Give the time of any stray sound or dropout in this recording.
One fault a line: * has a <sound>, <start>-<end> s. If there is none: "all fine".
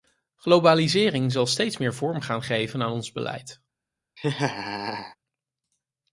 * has a laugh, 4.2-5.2 s